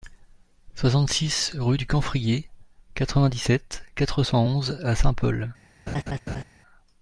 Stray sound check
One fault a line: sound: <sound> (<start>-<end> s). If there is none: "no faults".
sound: laugh (5.9-6.4 s)